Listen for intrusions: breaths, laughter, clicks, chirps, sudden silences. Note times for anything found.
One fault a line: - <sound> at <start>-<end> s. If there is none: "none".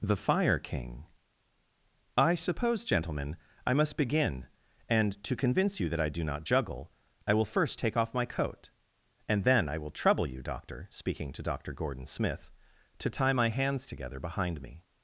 none